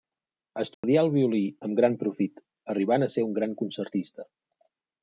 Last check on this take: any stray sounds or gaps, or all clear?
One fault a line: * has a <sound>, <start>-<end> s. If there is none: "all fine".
* has a dropout, 0.7-0.8 s